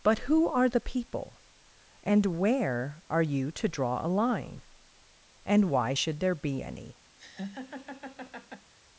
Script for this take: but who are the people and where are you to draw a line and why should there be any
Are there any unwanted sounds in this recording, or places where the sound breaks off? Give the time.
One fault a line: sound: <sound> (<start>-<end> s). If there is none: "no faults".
sound: laugh (7.2-8.7 s)